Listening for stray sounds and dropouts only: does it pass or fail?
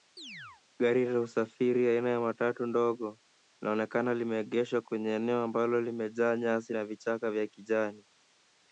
fail